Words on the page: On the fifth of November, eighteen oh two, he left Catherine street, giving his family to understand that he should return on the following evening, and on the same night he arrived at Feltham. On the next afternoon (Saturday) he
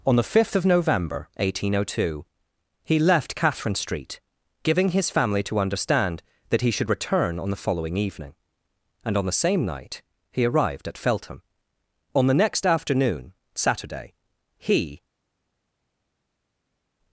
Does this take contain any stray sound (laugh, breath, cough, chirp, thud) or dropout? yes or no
no